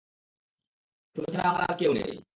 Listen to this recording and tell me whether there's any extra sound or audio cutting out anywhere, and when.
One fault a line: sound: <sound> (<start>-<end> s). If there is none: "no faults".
no faults